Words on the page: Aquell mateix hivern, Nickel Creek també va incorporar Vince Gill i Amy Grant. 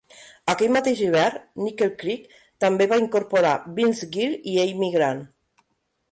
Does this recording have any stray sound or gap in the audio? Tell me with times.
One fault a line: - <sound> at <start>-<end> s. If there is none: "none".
none